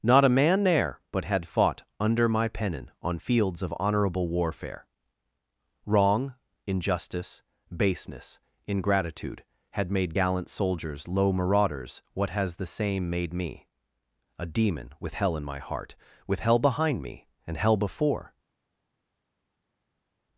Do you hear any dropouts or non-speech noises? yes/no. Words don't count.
no